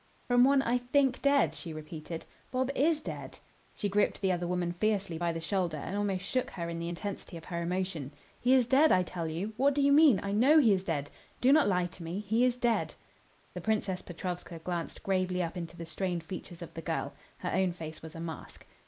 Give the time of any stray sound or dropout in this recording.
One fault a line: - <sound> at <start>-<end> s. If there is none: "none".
none